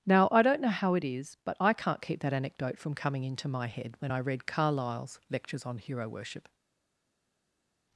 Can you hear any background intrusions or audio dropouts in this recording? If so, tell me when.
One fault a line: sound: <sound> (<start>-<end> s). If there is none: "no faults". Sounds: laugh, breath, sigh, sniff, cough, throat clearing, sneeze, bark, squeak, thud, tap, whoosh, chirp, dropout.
no faults